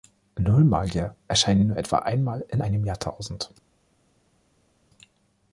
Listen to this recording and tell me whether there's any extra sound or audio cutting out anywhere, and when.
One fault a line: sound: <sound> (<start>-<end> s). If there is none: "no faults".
no faults